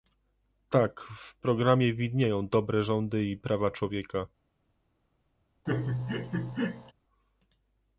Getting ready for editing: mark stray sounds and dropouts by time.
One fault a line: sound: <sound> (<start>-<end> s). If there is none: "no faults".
sound: laugh (5.7-6.9 s)